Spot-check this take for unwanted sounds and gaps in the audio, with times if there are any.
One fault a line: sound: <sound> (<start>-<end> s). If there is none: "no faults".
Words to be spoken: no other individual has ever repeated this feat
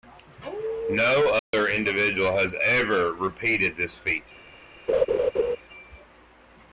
sound: dropout (1.4-1.5 s)
sound: laugh (4.9-5.6 s)